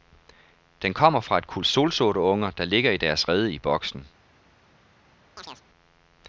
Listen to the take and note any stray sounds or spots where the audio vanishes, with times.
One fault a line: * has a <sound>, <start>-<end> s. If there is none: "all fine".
* has a chirp, 5.4-5.6 s